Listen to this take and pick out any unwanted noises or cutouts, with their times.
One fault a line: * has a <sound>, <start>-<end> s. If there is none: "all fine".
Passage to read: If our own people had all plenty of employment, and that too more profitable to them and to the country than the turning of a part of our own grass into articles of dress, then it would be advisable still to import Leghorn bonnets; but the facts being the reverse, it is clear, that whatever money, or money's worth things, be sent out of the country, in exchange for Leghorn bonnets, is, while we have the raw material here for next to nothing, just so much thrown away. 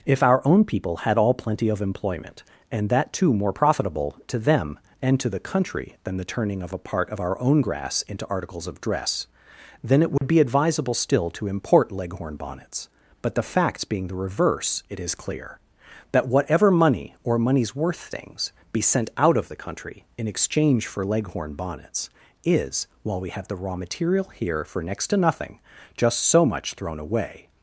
* has a dropout, 10.2-10.2 s